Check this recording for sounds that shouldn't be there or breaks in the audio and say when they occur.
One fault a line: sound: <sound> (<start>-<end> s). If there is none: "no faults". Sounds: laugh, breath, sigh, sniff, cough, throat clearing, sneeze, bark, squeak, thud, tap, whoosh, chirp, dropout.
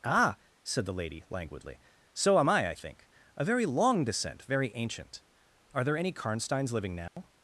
sound: dropout (7.1-7.2 s)